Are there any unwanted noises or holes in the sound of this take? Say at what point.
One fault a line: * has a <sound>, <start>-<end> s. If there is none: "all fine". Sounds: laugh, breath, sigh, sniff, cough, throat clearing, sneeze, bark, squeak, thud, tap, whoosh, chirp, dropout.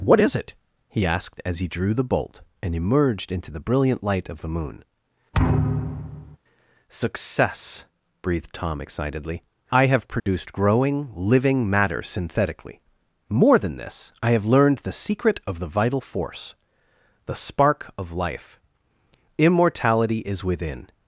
* has a thud, 5.3-6.4 s
* has a dropout, 10.2-10.3 s